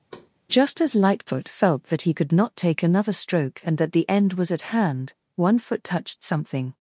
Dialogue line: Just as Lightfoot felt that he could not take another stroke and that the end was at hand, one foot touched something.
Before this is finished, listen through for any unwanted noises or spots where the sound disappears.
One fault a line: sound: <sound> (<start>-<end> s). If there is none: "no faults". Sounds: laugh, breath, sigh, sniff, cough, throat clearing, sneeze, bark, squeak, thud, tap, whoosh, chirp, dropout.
sound: thud (0.1-0.3 s)